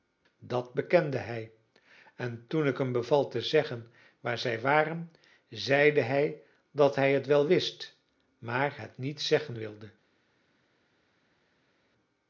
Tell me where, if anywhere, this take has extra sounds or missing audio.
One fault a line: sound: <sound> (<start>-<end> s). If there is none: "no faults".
no faults